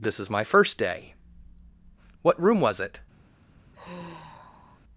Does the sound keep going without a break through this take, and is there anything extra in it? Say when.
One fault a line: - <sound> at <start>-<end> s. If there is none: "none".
- sigh at 3.7-4.8 s